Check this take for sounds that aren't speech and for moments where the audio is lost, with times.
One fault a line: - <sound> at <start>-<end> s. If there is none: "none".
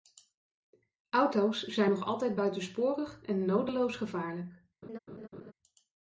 - laugh at 4.8-5.5 s